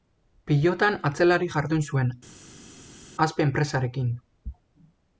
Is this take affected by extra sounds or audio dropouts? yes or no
no